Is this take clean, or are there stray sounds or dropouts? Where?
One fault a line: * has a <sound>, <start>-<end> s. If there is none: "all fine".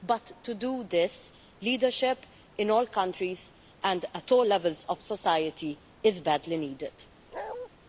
* has a bark, 7.3-7.7 s